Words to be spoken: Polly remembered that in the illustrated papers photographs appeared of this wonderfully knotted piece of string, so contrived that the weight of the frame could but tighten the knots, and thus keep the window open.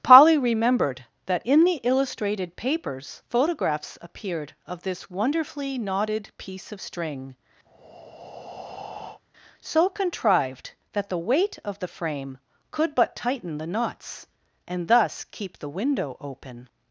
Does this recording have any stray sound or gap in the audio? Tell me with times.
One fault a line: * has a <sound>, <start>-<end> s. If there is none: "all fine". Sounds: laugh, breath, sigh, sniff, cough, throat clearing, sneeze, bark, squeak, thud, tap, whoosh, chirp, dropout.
* has a breath, 7.7-9.2 s